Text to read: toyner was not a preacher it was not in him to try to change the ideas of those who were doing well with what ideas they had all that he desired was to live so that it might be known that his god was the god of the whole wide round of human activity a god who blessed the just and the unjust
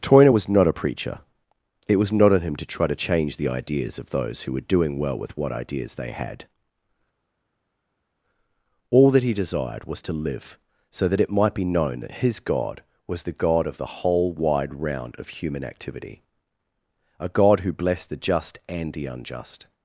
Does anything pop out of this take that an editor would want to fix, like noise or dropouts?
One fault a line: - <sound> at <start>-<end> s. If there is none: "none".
none